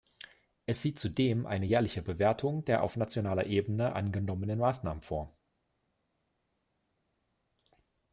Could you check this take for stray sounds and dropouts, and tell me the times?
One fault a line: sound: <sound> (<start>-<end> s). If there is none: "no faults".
no faults